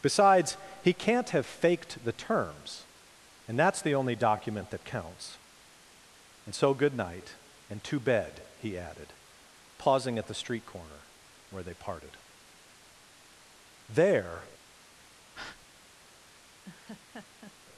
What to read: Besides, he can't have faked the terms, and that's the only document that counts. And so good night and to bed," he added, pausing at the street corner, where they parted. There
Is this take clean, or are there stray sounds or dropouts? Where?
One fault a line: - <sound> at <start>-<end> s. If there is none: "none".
- breath at 15.3-15.7 s
- laugh at 16.6-17.6 s